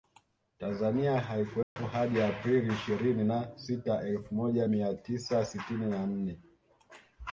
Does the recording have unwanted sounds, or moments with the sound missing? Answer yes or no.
yes